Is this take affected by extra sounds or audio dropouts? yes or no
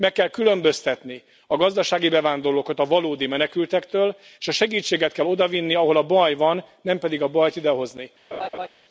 yes